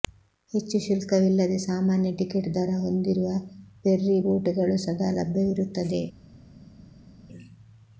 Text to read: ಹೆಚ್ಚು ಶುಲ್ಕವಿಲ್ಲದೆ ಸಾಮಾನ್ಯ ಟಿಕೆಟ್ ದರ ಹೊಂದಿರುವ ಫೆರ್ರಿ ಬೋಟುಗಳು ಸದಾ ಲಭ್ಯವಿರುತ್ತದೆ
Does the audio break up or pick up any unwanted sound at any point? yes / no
no